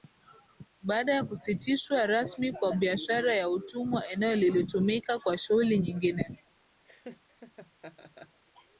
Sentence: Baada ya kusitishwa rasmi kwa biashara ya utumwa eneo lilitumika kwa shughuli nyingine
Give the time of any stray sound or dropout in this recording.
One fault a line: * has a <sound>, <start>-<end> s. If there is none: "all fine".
* has a laugh, 6.9-8.4 s